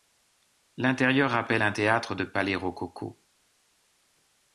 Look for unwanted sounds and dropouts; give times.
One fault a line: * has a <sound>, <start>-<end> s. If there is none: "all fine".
all fine